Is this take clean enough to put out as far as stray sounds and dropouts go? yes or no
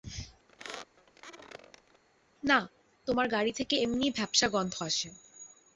no